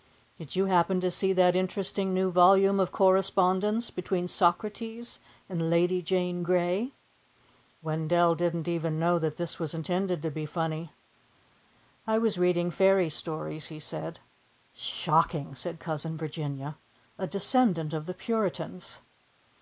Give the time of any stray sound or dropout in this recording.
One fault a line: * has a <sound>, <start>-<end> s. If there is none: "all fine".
all fine